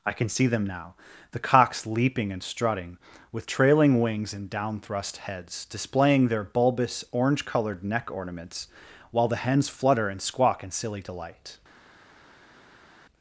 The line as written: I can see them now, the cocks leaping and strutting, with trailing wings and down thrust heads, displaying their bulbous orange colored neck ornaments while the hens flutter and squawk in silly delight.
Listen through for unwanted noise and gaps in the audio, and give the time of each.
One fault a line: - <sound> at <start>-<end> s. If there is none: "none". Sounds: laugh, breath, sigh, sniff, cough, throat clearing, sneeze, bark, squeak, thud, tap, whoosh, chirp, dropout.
none